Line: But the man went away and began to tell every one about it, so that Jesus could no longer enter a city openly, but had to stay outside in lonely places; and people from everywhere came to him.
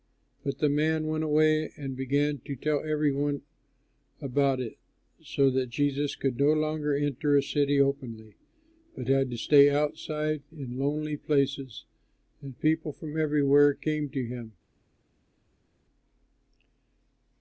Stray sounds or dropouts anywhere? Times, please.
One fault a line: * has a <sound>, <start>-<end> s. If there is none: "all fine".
all fine